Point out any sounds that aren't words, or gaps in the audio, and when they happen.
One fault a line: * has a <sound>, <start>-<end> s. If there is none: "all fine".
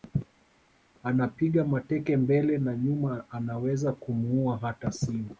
all fine